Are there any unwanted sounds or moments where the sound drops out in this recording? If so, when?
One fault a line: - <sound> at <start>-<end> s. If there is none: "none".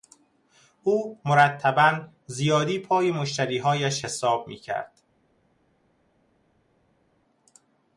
none